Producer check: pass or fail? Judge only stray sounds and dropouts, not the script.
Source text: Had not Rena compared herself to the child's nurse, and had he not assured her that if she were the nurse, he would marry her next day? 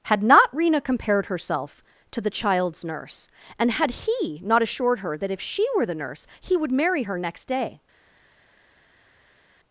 pass